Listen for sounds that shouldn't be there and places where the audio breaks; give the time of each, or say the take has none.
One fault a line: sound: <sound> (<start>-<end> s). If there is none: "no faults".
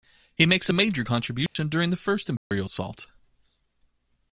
sound: dropout (1.5-1.6 s)
sound: dropout (2.4-2.5 s)